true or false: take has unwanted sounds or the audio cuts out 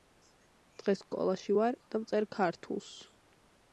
false